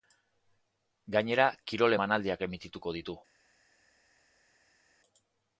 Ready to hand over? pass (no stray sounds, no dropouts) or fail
pass